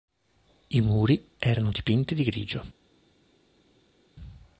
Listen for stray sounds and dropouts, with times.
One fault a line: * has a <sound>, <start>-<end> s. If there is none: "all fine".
all fine